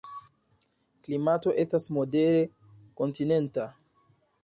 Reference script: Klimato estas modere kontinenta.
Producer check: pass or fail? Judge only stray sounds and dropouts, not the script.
pass